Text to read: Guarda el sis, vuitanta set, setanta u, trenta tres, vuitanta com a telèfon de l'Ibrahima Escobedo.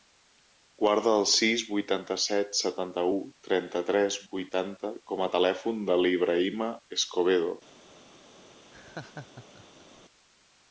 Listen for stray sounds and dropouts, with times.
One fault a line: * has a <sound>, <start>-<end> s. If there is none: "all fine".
* has a laugh, 8.7-10.0 s